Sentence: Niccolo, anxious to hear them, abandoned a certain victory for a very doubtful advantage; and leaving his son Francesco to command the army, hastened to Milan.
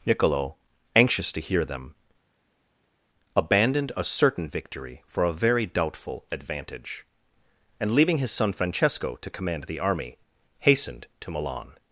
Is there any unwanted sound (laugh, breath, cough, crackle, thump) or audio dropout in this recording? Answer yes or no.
no